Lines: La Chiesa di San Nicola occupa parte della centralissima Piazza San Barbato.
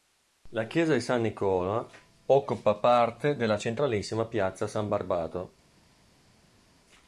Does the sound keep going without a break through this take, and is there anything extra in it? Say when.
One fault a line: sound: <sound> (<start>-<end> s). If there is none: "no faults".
no faults